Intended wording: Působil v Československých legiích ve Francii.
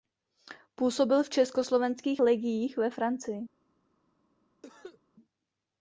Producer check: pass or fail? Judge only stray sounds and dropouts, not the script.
fail